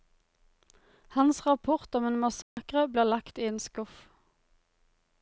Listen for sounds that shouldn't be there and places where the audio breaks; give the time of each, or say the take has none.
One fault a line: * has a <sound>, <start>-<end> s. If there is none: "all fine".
* has a dropout, 2.4-2.6 s